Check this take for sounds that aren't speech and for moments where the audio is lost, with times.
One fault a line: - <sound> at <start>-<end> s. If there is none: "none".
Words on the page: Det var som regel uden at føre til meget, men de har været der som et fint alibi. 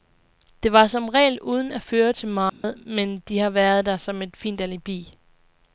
- dropout at 2.5-2.6 s